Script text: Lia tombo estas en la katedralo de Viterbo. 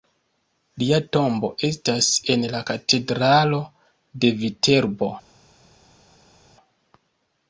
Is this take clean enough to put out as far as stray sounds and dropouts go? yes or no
yes